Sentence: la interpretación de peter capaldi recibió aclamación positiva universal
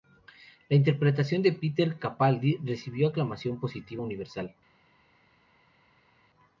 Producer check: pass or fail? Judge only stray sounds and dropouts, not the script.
pass